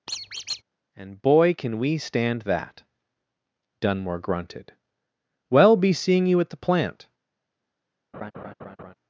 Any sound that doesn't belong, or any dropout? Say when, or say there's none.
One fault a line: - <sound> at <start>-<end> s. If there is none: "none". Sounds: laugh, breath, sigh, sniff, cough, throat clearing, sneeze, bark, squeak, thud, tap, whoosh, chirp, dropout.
- squeak at 0.1-0.6 s
- laugh at 8.1-8.9 s